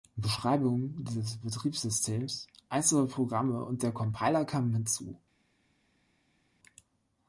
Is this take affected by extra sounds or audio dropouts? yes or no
no